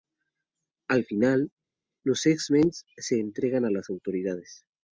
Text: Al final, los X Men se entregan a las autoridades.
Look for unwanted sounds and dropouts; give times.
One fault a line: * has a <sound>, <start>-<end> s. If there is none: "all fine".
all fine